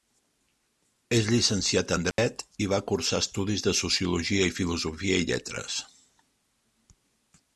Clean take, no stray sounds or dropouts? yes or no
no